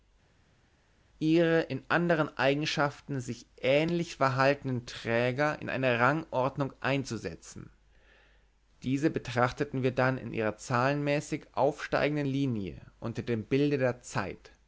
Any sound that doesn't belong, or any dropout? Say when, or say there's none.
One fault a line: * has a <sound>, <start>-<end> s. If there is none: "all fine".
all fine